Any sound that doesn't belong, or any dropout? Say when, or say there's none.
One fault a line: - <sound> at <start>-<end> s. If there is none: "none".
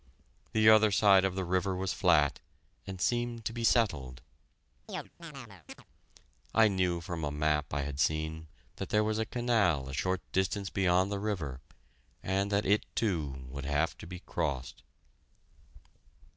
- chirp at 4.9-5.8 s